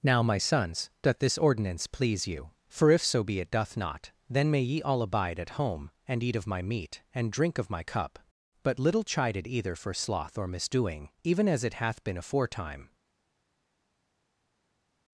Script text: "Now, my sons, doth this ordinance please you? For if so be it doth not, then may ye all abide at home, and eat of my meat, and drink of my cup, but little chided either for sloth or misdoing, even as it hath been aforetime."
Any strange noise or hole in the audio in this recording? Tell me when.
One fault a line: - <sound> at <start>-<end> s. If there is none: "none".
none